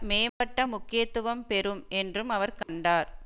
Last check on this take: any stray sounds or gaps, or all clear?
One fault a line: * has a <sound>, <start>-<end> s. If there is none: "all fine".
* has a dropout, 0.3-0.4 s
* has a dropout, 2.6-2.7 s